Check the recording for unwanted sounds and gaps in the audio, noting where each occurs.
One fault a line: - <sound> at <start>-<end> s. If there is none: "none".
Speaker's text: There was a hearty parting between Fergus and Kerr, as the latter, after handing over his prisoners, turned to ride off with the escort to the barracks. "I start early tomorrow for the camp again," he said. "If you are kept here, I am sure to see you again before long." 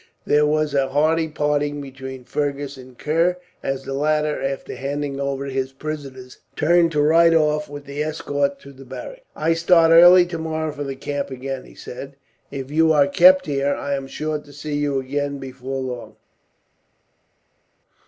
none